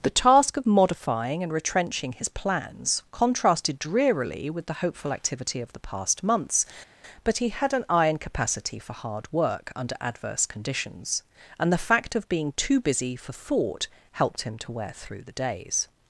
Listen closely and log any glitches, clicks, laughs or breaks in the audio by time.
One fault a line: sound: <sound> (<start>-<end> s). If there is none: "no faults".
no faults